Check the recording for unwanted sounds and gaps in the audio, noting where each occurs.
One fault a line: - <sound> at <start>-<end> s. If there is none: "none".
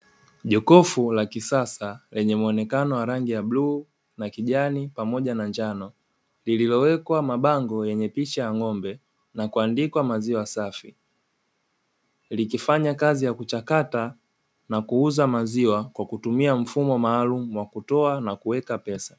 none